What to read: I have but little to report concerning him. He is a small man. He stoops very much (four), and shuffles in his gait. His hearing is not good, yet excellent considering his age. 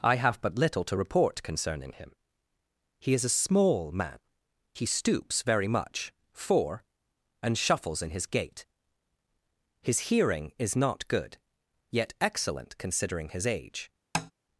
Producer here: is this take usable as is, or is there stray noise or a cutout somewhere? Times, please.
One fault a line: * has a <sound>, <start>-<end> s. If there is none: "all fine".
* has a tap, 14.1-14.3 s